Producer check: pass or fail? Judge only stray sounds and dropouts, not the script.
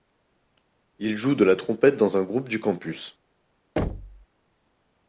fail